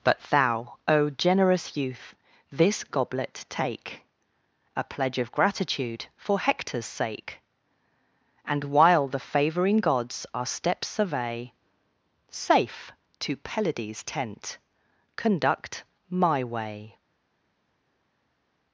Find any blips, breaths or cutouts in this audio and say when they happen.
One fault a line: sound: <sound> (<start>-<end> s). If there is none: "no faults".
no faults